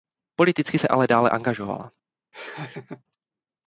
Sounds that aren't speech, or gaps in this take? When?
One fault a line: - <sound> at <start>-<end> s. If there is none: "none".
- laugh at 2.3-3.0 s